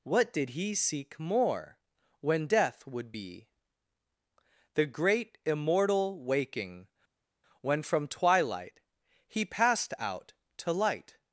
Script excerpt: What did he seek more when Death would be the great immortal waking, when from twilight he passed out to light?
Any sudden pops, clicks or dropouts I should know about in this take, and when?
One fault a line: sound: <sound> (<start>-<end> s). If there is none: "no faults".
no faults